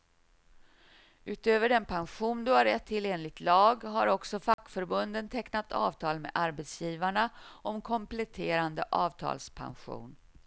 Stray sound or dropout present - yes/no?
yes